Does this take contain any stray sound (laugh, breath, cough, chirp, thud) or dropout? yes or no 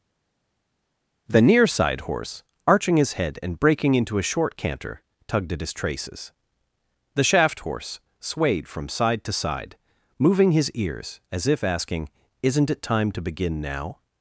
no